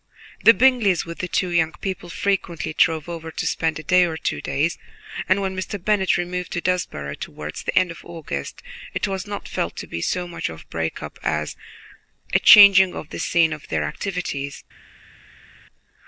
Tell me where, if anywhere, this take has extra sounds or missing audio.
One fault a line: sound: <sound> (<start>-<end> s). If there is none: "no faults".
no faults